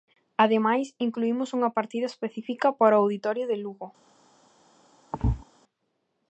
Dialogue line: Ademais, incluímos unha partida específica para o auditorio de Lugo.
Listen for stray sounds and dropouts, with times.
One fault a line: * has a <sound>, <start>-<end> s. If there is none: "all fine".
* has a thud, 5.1-5.4 s